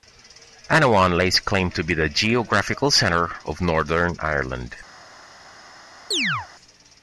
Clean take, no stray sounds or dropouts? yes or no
no